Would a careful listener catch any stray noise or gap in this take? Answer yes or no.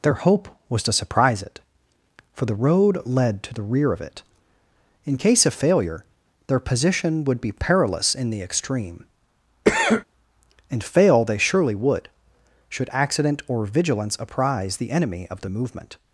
yes